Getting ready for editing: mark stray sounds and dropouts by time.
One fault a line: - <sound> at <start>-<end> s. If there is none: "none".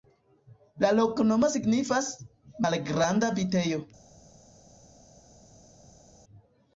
none